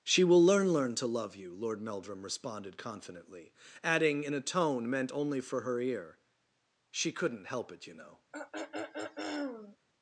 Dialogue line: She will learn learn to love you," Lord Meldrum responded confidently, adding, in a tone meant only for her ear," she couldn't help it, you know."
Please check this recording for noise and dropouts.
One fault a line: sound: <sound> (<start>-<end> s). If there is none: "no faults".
sound: throat clearing (8.3-9.8 s)